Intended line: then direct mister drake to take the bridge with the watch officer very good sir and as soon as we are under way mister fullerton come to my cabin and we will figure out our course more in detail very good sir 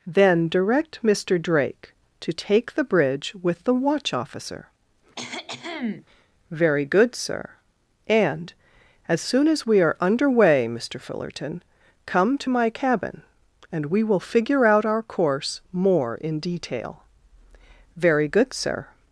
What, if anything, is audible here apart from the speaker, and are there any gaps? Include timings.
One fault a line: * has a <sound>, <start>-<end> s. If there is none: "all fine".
* has a cough, 5.2-6.1 s